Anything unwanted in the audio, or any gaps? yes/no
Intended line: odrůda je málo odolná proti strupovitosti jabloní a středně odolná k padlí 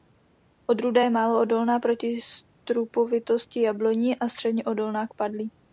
no